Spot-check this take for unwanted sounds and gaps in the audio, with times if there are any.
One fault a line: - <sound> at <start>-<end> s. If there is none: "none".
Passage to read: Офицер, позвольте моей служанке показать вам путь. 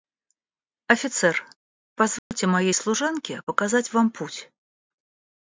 - dropout at 2.2-2.3 s